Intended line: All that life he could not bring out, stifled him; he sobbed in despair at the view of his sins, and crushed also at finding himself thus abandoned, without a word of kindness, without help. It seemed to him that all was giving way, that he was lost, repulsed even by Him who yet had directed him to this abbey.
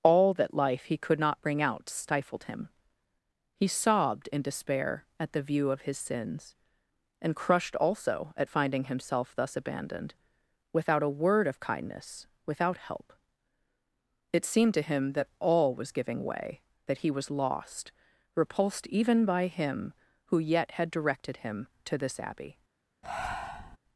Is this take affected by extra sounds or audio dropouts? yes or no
yes